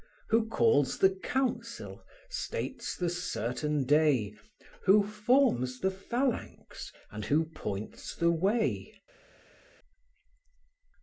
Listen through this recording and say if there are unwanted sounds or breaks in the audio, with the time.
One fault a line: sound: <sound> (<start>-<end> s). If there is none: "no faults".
no faults